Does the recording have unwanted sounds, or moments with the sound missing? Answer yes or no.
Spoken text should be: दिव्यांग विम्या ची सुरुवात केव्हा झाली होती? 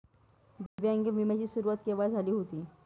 yes